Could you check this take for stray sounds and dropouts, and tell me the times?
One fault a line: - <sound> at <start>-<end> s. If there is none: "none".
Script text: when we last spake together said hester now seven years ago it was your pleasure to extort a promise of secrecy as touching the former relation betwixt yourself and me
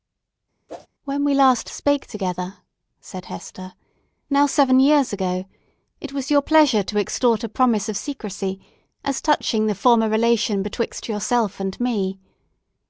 - whoosh at 0.7-0.9 s